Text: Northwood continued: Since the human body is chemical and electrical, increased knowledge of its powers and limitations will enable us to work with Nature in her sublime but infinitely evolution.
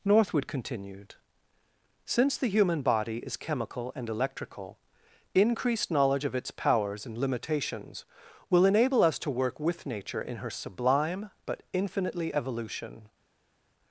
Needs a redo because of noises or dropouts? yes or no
no